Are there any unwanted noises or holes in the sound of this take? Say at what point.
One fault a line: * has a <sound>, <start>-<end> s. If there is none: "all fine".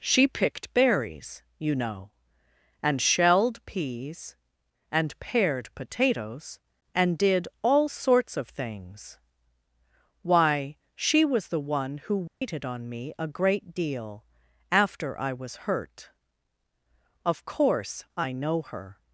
* has a dropout, 12.3-12.4 s